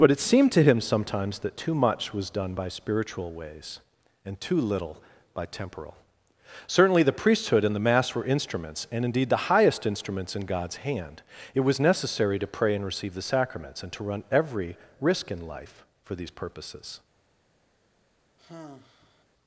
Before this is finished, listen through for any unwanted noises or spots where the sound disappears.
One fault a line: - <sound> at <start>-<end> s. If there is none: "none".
- sigh at 18.4-19.3 s